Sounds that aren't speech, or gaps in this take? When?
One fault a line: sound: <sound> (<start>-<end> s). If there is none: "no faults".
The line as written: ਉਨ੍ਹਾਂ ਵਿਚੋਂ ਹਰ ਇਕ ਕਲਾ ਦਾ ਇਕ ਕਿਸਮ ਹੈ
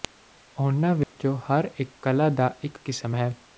sound: dropout (1.0-1.1 s)